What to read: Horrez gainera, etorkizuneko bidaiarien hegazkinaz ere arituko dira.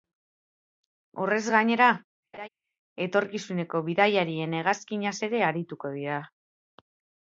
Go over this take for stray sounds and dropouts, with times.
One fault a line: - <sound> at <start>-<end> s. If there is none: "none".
- laugh at 2.3-2.5 s